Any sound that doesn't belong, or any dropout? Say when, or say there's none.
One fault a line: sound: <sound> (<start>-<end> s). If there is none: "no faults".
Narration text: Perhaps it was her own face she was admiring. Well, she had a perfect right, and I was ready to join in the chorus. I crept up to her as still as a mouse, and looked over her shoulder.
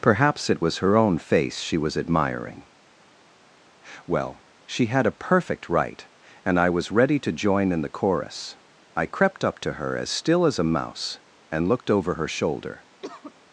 sound: cough (13.0-13.3 s)